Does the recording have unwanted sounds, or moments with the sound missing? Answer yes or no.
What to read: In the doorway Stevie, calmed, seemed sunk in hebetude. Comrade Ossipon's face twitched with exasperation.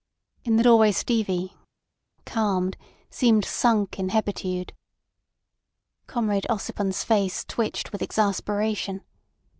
no